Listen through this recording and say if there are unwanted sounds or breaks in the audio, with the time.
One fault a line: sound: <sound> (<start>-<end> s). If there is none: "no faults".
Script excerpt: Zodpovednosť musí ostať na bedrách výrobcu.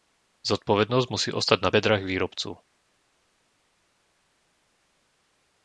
no faults